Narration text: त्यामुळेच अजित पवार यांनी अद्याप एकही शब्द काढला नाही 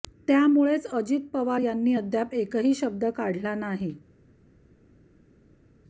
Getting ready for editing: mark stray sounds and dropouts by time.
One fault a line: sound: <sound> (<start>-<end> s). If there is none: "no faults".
no faults